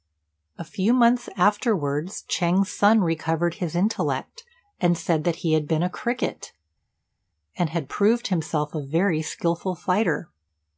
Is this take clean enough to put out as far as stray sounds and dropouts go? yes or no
yes